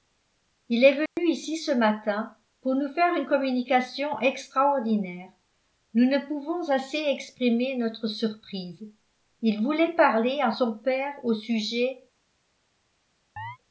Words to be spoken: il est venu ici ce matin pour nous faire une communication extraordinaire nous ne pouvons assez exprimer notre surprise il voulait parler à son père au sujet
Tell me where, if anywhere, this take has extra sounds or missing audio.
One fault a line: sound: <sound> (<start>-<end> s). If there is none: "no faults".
sound: dropout (1.1-1.2 s)
sound: chirp (13.4-13.6 s)